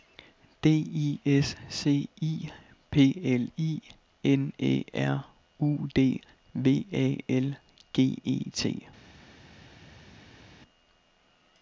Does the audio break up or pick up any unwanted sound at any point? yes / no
no